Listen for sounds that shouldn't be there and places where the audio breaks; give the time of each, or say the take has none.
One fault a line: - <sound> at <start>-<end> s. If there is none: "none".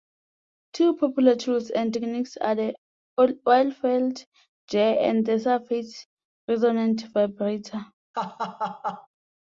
- laugh at 8.1-9.1 s